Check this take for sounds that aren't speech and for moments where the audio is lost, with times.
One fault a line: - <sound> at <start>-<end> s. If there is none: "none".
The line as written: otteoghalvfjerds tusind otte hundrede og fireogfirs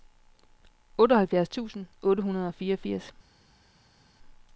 none